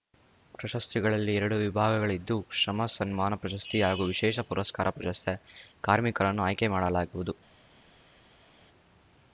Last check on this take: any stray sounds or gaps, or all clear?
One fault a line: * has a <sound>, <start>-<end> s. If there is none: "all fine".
all fine